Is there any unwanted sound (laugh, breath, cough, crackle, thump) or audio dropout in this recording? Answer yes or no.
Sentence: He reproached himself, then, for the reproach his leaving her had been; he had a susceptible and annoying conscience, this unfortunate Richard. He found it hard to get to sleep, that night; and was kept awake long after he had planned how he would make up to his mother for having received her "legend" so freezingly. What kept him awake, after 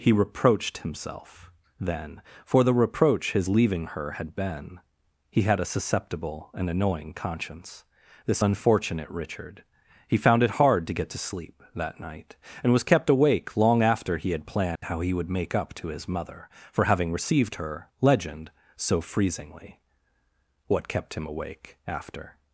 yes